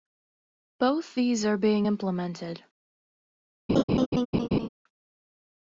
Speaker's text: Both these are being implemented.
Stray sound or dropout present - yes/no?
yes